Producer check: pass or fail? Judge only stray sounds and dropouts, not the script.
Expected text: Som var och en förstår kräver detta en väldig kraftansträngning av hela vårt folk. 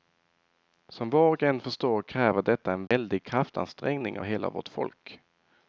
fail